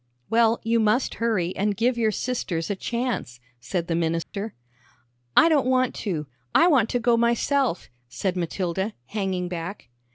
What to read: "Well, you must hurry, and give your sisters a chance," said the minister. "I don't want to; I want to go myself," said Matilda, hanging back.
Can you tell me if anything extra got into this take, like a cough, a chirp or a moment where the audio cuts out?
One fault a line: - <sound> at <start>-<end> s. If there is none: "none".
- dropout at 4.2-4.3 s